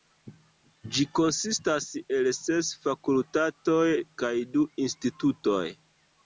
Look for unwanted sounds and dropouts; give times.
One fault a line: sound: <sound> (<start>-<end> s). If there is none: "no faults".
no faults